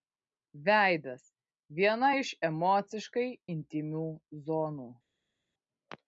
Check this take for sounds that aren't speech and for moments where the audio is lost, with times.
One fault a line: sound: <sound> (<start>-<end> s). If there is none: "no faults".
no faults